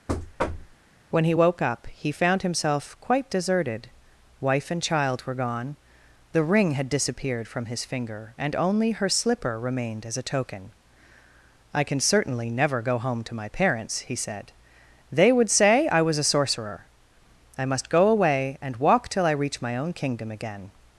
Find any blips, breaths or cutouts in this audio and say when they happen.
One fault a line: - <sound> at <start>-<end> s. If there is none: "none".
- thud at 0.1-0.8 s